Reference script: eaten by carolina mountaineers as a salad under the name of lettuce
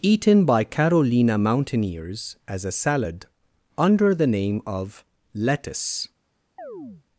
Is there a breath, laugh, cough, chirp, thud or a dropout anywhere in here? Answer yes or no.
yes